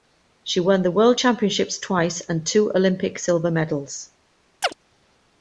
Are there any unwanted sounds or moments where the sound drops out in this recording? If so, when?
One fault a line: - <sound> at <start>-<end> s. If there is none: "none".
- chirp at 4.6-4.7 s